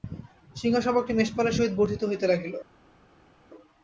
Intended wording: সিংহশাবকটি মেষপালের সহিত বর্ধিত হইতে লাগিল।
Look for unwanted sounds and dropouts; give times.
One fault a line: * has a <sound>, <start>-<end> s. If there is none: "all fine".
all fine